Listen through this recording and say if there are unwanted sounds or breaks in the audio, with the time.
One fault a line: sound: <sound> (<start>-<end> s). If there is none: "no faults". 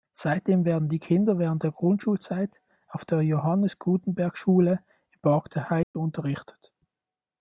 sound: dropout (5.8-5.9 s)